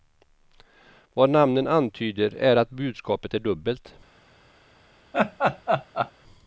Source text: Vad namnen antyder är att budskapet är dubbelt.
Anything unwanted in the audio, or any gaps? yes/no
yes